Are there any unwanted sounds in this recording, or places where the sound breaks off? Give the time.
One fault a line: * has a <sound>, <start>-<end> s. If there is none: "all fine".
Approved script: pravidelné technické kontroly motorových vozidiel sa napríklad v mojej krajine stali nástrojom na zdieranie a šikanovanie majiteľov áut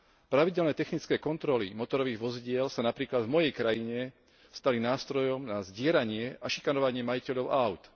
all fine